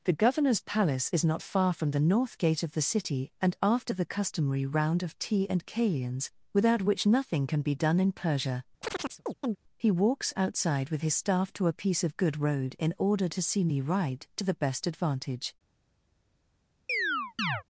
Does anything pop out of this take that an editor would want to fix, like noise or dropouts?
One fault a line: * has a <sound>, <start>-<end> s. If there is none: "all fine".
* has a chirp, 8.8-9.6 s
* has a chirp, 16.9-17.6 s